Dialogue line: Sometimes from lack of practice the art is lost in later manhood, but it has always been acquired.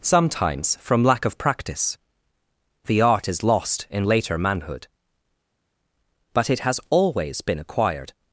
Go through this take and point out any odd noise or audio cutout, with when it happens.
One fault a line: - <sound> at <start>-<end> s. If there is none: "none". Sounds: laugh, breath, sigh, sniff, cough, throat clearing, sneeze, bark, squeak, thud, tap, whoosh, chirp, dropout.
none